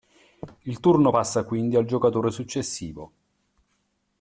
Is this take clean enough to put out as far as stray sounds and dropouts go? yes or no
yes